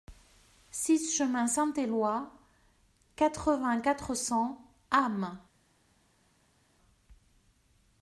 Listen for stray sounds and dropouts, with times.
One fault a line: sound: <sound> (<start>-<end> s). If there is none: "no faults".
no faults